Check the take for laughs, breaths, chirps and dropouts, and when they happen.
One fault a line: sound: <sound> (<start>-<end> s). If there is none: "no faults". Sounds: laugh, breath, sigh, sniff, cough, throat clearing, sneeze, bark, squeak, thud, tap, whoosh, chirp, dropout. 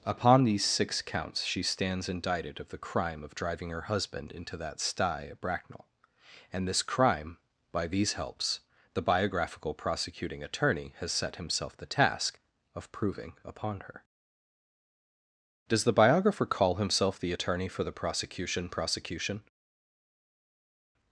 no faults